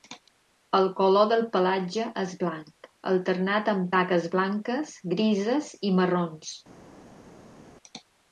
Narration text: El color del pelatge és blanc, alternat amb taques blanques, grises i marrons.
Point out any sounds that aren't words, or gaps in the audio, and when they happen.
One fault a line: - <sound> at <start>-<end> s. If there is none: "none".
none